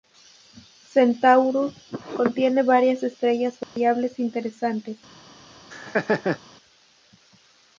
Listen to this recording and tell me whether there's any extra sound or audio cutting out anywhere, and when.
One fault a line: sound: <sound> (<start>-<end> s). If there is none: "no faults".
sound: dropout (3.6-3.8 s)
sound: laugh (5.7-6.4 s)